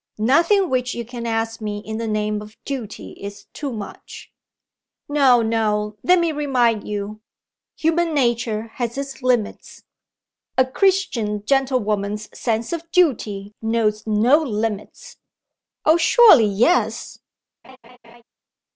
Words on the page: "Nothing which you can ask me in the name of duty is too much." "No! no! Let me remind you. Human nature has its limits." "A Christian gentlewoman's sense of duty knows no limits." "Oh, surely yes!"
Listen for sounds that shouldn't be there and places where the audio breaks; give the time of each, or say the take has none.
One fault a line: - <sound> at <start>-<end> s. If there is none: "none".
- laugh at 17.6-18.2 s